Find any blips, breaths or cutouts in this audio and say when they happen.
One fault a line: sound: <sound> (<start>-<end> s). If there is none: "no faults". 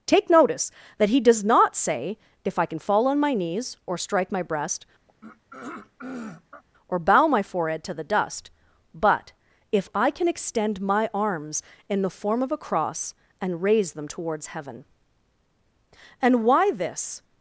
sound: throat clearing (5.1-6.6 s)